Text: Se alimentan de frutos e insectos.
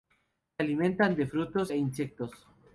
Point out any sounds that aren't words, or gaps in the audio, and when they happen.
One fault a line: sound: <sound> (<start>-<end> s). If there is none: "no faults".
no faults